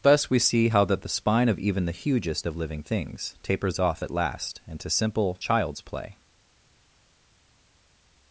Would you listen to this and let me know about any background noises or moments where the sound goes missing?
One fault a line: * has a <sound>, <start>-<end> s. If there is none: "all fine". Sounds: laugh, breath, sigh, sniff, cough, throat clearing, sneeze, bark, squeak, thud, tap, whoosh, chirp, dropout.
all fine